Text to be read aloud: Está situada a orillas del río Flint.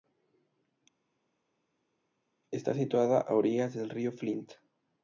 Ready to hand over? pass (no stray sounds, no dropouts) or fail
pass